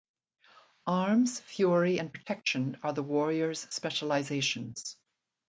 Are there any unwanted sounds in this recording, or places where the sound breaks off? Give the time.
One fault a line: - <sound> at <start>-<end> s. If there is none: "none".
none